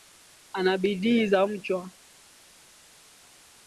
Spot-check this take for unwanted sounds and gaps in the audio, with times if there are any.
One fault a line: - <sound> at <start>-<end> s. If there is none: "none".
none